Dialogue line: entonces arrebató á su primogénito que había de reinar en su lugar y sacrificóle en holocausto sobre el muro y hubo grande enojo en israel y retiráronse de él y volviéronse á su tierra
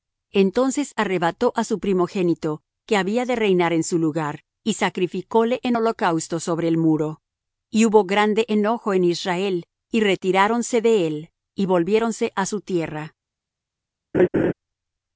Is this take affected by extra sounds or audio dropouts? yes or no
yes